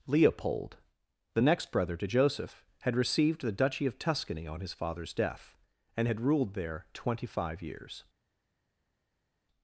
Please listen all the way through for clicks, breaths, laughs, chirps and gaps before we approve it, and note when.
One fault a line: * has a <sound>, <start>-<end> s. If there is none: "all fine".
all fine